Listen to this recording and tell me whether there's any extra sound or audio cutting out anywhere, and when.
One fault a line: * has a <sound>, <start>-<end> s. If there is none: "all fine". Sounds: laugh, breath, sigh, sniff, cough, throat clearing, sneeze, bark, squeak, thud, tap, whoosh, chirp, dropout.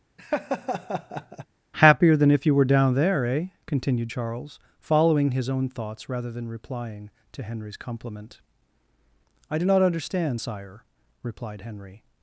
* has a laugh, 0.2-1.5 s